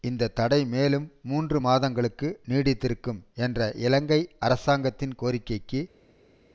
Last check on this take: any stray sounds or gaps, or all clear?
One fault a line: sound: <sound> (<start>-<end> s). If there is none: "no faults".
no faults